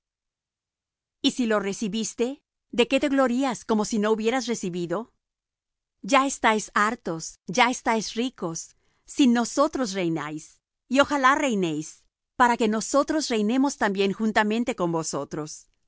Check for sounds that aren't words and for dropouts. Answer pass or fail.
pass